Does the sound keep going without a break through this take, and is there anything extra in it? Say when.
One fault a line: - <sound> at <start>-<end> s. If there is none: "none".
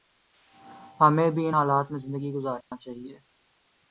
- dropout at 2.6-2.7 s